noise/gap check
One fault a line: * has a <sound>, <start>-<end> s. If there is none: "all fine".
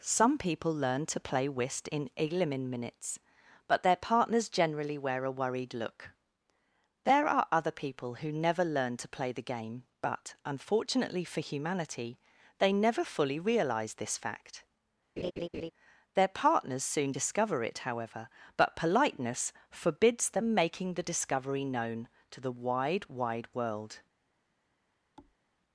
* has a laugh, 15.2-15.7 s
* has a thud, 25.2-25.4 s